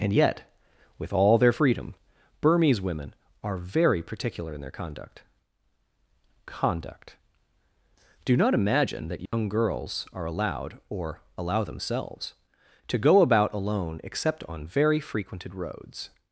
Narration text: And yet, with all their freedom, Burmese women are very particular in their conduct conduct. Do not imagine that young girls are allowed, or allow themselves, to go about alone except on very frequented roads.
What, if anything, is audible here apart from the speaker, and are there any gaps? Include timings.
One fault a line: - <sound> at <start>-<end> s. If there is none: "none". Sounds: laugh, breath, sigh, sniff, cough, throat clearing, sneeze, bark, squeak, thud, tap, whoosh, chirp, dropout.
- dropout at 9.3-9.3 s